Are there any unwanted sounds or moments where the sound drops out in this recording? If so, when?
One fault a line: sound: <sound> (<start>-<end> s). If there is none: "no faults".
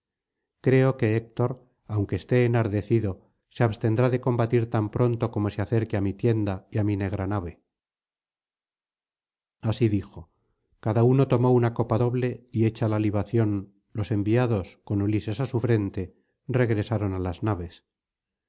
no faults